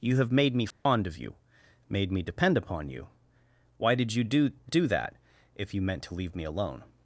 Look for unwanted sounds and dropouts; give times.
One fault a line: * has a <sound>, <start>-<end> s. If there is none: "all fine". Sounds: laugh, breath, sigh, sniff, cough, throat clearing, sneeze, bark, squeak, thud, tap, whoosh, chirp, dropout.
* has a dropout, 0.7-0.9 s